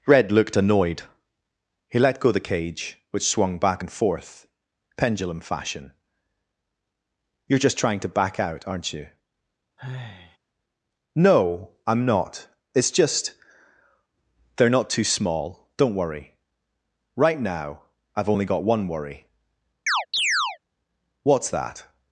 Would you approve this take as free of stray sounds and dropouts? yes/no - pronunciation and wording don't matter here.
no